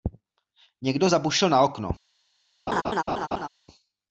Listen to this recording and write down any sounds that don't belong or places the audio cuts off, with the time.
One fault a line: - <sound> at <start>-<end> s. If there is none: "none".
- laugh at 2.7-3.5 s